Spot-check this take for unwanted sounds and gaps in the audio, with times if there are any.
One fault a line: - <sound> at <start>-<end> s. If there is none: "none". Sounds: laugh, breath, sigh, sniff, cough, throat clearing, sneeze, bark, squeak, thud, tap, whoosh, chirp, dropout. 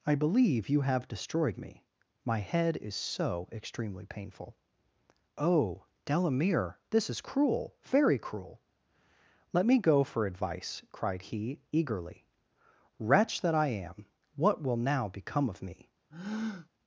- breath at 16.1-16.7 s